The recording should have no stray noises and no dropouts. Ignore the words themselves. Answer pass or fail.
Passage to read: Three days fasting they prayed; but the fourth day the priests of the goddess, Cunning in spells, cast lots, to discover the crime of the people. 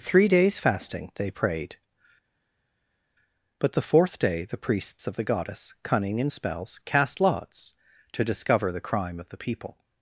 pass